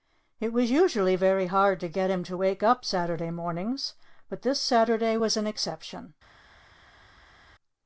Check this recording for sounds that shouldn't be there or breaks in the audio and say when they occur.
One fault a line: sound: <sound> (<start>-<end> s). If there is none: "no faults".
no faults